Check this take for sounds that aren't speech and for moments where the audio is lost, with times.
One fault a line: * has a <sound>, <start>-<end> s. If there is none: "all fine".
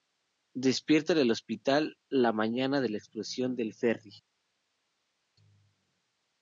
all fine